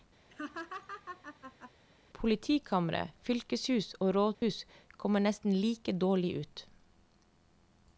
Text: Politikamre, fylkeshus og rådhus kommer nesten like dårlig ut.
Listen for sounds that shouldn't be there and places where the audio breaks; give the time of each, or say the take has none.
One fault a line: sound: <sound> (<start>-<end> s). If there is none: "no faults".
sound: laugh (0.3-1.7 s)
sound: dropout (4.3-4.4 s)